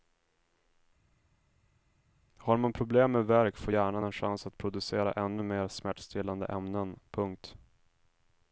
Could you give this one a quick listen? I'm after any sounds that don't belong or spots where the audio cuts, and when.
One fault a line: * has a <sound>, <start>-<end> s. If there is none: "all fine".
all fine